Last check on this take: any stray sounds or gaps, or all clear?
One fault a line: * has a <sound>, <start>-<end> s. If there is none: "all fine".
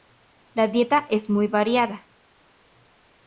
all fine